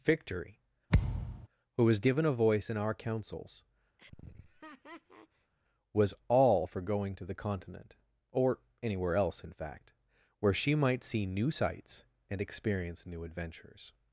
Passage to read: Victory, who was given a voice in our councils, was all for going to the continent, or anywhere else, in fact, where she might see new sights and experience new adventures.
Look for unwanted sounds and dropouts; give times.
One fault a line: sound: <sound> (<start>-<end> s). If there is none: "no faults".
sound: thud (0.9-1.5 s)
sound: laugh (4.0-5.5 s)